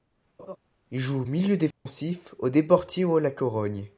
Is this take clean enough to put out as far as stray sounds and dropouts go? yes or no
no